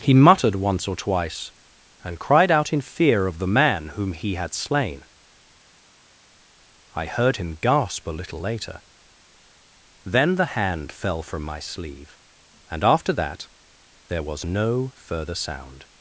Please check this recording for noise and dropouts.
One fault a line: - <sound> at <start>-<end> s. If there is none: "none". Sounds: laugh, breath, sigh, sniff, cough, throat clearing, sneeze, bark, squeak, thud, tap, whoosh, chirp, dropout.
none